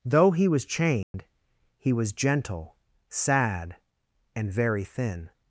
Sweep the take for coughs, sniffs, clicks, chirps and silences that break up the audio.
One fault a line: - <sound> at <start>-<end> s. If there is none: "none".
- dropout at 1.0-1.1 s